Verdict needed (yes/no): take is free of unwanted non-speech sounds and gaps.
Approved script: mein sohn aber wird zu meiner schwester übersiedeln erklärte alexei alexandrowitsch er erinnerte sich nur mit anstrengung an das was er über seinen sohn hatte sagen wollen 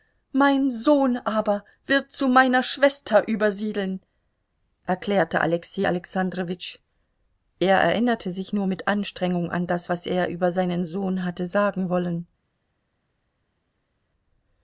yes